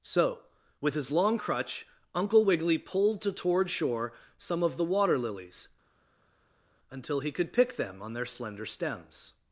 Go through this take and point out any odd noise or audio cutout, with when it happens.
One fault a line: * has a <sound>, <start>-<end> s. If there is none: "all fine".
all fine